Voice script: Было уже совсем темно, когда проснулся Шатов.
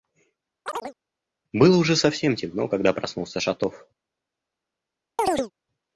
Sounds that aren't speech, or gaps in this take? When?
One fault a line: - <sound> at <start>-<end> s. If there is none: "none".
- chirp at 0.6-1.0 s
- chirp at 5.2-5.5 s